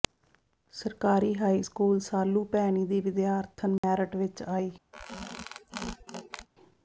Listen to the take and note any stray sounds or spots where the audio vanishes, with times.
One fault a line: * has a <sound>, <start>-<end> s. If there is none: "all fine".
* has a dropout, 3.8-3.8 s
* has a squeak, 4.9-6.5 s